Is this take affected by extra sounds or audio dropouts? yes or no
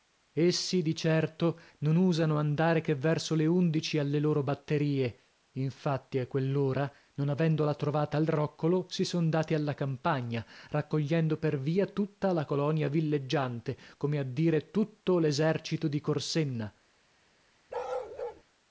yes